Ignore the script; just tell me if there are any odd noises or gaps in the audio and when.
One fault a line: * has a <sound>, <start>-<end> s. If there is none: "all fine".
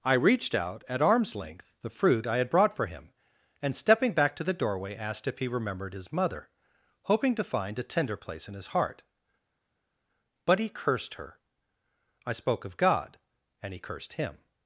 all fine